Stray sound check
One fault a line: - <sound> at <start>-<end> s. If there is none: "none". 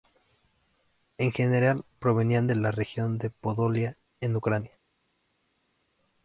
none